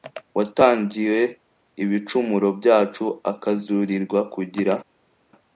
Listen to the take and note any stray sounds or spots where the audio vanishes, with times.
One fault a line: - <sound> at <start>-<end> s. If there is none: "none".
none